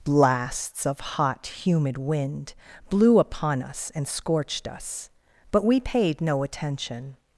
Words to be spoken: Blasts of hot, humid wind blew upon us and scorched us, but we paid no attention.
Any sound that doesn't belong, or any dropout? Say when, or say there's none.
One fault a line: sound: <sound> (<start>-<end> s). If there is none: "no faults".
no faults